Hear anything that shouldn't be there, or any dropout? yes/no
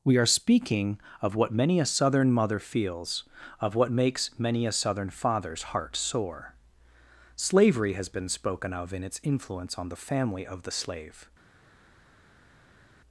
no